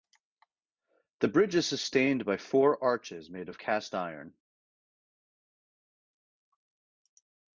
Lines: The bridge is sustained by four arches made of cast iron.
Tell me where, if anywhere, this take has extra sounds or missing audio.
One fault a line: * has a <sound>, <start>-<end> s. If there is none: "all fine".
all fine